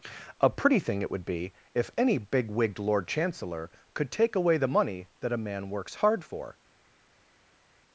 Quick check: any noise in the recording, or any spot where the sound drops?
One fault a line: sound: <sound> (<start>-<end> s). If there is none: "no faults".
no faults